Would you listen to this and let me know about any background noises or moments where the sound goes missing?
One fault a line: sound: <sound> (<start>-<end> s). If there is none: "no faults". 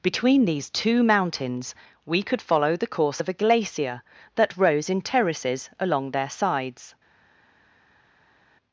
no faults